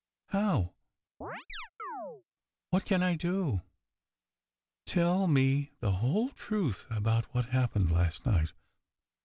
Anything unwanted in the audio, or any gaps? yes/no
yes